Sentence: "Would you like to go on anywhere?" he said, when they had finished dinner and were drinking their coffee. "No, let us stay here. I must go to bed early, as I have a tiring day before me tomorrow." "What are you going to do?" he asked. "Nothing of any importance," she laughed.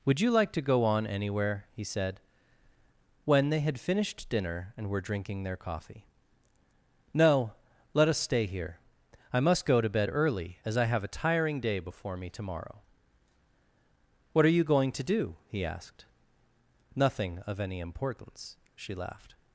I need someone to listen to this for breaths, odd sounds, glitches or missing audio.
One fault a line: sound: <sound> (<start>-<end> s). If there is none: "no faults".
no faults